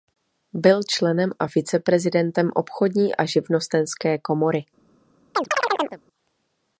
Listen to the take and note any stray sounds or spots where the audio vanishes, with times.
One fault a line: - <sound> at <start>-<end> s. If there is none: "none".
- chirp at 5.3-6.0 s